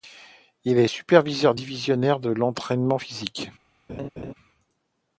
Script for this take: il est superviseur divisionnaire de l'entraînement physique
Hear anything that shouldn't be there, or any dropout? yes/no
yes